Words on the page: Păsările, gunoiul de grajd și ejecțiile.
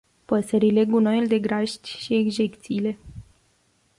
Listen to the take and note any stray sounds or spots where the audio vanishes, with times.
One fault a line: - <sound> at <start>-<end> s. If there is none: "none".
none